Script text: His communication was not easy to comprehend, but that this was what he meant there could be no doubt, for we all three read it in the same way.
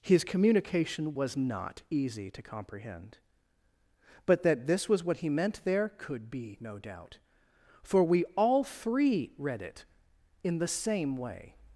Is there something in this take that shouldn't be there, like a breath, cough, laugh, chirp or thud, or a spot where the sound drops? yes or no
no